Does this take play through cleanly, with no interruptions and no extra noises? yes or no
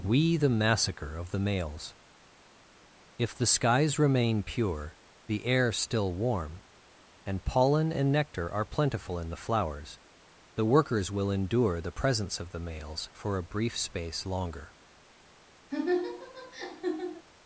no